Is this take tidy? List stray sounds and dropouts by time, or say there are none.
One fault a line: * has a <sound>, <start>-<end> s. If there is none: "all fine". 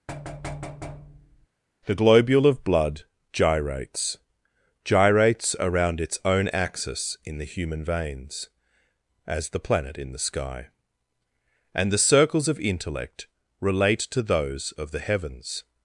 * has a thud, 0.1-1.5 s